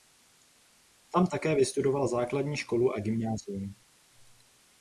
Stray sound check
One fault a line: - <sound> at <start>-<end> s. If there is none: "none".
none